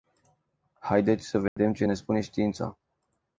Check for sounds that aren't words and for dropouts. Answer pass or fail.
fail